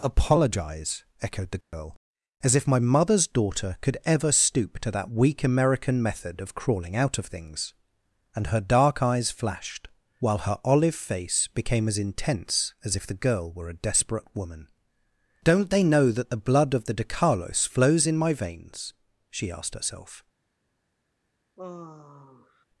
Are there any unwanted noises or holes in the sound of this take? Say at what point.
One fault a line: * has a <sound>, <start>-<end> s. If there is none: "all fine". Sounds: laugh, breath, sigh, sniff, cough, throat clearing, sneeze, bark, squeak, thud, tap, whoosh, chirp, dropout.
* has a dropout, 1.6-1.7 s
* has a sigh, 21.6-22.6 s